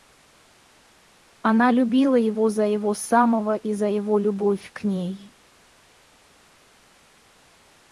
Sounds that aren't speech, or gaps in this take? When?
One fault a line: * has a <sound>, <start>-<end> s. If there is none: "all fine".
all fine